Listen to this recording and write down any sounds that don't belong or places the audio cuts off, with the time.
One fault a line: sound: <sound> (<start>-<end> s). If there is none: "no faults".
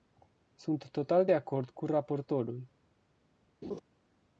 sound: laugh (3.6-3.8 s)